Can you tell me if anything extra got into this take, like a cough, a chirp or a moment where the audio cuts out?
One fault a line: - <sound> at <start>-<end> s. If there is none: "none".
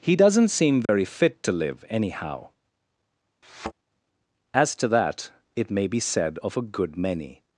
- dropout at 0.9-0.9 s
- thud at 3.4-3.7 s